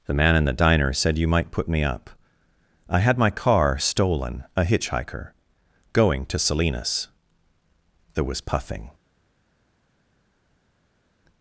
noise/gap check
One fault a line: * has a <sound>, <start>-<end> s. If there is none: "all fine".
all fine